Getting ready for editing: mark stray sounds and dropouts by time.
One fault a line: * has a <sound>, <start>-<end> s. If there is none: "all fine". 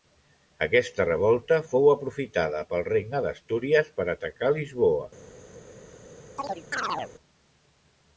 * has a chirp, 6.4-7.1 s